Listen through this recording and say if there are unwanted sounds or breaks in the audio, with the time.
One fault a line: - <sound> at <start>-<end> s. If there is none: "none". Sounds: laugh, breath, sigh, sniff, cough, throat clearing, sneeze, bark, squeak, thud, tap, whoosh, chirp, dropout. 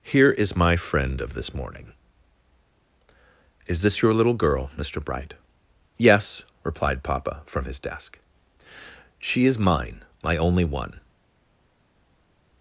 none